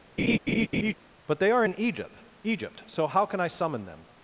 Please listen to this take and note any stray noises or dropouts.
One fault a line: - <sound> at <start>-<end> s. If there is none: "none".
- laugh at 0.2-0.9 s